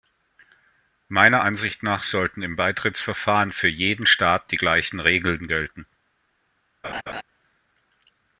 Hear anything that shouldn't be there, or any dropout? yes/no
yes